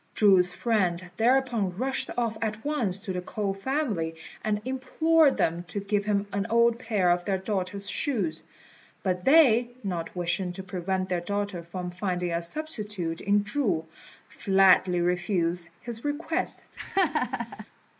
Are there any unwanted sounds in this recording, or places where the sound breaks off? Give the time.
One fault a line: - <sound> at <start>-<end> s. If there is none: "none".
- laugh at 16.8-17.7 s